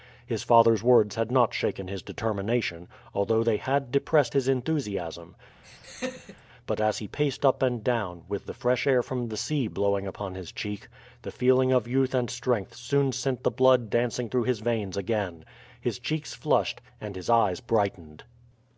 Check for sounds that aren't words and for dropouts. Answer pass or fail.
fail